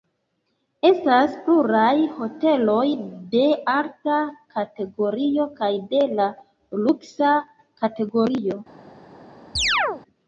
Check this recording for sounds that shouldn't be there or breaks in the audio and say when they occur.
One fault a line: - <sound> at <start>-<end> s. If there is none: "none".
- chirp at 9.6-10.0 s